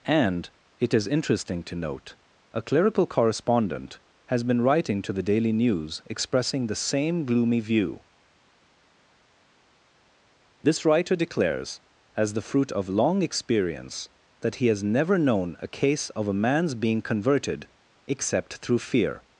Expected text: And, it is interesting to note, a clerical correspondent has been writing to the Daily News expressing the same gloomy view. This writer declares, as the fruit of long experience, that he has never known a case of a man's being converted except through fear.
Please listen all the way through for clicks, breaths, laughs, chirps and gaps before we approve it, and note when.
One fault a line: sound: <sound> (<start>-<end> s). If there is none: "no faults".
no faults